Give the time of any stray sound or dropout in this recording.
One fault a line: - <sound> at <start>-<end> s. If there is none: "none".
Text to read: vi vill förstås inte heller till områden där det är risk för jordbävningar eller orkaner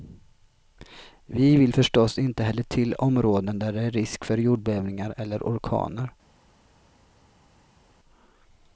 none